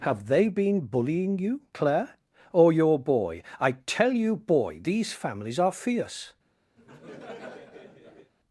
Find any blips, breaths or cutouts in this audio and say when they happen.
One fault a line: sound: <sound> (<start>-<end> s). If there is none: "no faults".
sound: laugh (6.8-8.3 s)